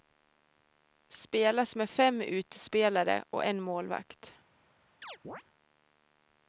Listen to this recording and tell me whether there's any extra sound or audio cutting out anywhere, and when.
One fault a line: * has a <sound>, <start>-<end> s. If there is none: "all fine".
* has a chirp, 5.0-5.4 s